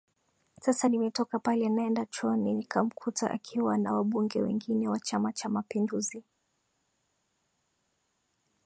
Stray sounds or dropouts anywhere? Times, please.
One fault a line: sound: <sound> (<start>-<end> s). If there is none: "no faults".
no faults